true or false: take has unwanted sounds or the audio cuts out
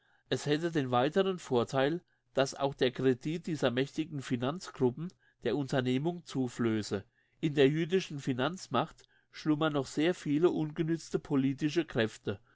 false